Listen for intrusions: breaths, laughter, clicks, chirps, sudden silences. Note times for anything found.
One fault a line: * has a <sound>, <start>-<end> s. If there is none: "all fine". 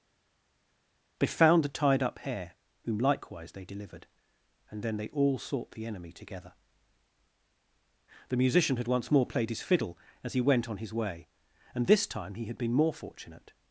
all fine